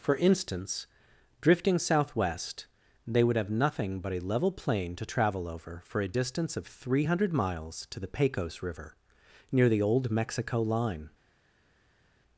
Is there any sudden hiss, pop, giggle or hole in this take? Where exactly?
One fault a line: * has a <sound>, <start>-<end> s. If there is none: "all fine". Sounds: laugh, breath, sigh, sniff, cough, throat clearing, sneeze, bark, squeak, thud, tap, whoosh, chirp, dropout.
all fine